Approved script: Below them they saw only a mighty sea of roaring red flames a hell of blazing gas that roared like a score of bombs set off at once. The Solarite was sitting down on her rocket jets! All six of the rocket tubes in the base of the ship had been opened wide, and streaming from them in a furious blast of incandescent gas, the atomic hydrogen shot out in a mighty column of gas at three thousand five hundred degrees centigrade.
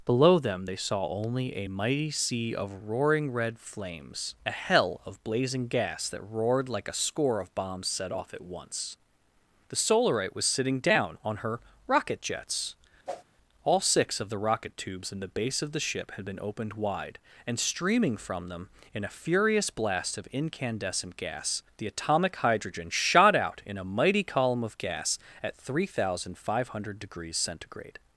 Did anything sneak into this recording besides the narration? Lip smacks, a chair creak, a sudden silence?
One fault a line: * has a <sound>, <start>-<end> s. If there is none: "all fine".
* has a whoosh, 13.1-13.2 s